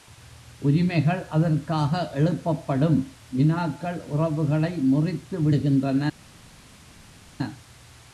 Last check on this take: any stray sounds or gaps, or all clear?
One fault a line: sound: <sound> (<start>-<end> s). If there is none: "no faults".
no faults